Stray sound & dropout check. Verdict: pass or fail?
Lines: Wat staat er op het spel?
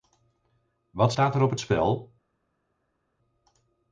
pass